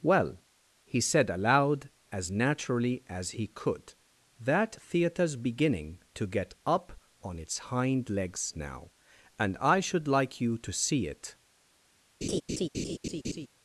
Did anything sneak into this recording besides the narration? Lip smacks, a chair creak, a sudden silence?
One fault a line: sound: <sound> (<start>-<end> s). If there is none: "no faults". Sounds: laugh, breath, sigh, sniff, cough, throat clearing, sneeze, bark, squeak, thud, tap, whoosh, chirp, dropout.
sound: laugh (12.2-13.5 s)